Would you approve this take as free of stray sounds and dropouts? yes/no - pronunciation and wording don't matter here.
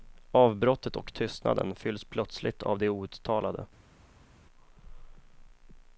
yes